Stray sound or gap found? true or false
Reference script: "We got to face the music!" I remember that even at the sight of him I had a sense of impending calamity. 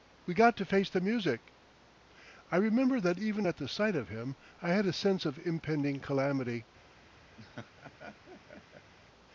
true